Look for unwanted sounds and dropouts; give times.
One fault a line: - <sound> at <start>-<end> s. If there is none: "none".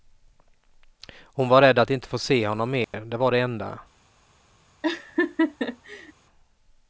- dropout at 2.8-2.9 s
- laugh at 4.8-6.1 s